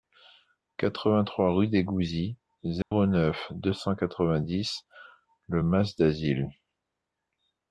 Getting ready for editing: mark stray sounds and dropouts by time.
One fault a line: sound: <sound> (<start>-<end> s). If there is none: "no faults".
sound: dropout (2.8-2.9 s)